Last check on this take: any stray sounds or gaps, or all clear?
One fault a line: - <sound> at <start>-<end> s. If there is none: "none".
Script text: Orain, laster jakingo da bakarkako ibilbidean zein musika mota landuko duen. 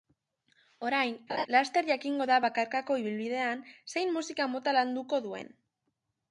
- laugh at 1.3-1.5 s